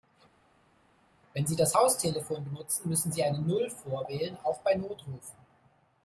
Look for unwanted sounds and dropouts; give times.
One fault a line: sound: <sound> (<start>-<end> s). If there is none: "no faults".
no faults